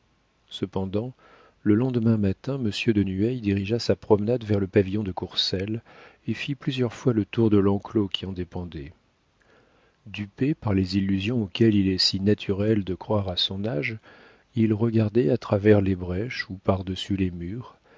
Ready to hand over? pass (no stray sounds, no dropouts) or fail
pass